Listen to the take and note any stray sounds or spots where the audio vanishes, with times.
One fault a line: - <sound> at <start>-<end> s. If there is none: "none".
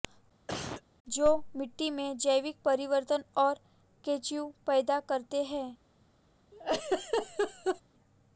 - cough at 0.5-0.8 s
- laugh at 6.5-7.8 s